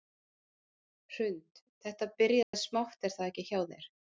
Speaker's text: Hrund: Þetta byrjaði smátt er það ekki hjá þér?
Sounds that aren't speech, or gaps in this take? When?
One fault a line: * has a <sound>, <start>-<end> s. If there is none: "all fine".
* has a dropout, 2.4-2.5 s